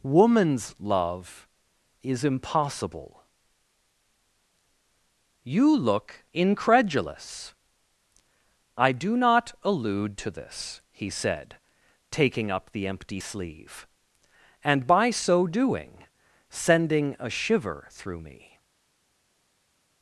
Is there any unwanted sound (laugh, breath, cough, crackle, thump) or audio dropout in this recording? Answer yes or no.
no